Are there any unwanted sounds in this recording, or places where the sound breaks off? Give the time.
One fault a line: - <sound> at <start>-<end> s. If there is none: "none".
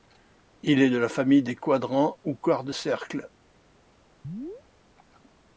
- chirp at 4.2-4.6 s